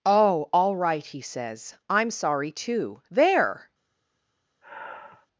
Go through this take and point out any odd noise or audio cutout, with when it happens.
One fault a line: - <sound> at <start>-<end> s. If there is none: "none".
- sigh at 4.6-5.3 s